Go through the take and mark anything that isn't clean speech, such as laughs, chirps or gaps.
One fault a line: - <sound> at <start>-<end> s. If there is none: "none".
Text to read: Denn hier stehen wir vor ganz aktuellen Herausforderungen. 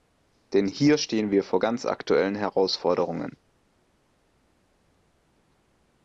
none